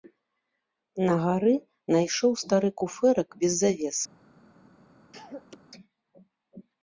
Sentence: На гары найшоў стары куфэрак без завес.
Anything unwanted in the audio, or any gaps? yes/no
yes